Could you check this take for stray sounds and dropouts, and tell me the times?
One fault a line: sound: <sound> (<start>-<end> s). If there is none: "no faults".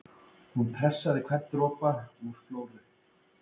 no faults